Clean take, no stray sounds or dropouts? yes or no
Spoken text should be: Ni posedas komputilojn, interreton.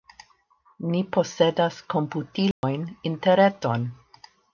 no